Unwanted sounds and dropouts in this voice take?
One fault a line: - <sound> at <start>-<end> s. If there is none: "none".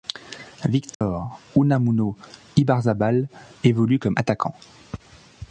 - dropout at 0.9-1.0 s